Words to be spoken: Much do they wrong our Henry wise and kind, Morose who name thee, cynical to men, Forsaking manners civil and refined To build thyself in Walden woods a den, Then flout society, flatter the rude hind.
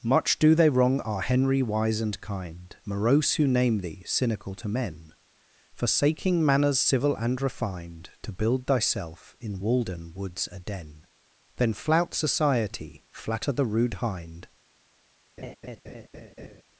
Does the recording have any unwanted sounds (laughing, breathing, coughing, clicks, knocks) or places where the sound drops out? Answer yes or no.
yes